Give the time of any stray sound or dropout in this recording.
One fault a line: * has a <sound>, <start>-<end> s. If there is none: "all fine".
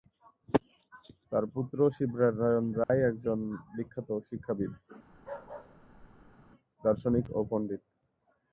* has a dropout, 2.8-2.9 s
* has a bark, 5.1-6.5 s